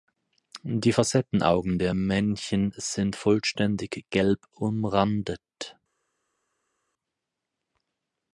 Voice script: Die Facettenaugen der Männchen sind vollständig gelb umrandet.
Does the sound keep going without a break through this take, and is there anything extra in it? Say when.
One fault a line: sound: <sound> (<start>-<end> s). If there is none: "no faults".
no faults